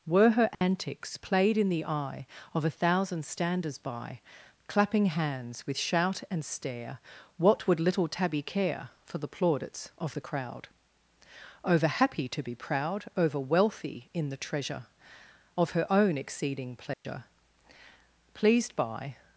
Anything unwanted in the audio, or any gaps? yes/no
yes